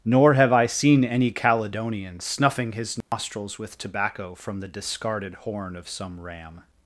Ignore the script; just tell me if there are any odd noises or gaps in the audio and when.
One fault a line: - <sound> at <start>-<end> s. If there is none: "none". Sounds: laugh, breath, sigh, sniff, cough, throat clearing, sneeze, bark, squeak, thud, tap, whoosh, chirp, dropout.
- dropout at 3.0-3.1 s